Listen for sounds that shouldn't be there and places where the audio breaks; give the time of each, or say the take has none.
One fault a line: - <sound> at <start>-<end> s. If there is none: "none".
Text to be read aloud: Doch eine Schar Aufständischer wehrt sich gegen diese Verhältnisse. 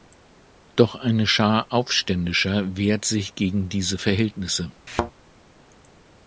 - thud at 4.9-5.1 s